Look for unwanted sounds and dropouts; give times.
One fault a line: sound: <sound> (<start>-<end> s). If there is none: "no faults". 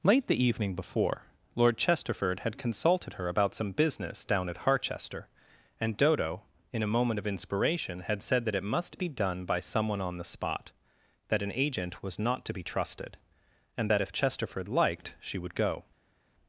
no faults